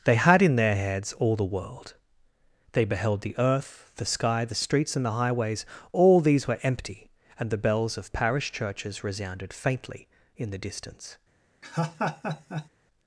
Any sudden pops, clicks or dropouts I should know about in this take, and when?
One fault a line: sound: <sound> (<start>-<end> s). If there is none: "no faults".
sound: laugh (11.6-12.7 s)